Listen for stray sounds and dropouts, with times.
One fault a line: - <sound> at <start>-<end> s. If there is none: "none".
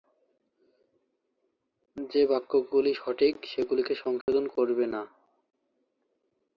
- dropout at 4.2-4.3 s